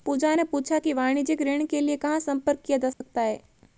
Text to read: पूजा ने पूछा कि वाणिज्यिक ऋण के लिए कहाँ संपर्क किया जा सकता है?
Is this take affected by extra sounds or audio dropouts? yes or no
yes